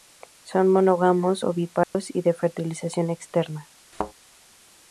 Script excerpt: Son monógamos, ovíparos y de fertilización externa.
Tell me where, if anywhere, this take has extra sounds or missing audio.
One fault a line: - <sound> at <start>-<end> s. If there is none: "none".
- dropout at 1.8-1.9 s
- thud at 3.9-4.1 s